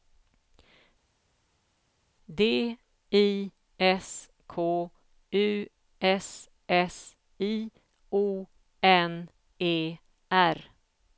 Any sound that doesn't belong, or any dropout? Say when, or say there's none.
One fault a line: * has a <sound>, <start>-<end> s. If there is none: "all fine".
all fine